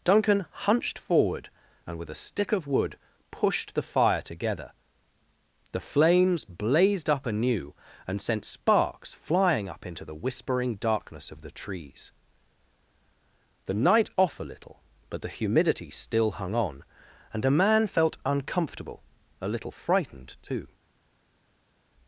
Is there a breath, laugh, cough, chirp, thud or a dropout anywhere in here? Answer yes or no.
no